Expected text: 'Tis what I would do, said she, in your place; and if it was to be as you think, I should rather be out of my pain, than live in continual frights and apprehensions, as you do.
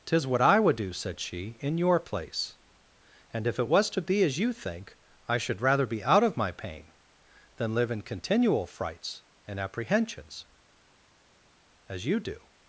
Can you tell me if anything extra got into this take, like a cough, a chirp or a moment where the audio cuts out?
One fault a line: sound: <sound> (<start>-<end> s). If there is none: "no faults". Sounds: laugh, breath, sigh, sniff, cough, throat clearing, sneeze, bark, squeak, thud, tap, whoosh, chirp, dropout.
no faults